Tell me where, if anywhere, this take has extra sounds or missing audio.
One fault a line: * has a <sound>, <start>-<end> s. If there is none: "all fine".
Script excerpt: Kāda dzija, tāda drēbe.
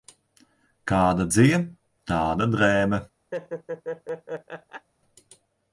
* has a laugh, 3.3-4.9 s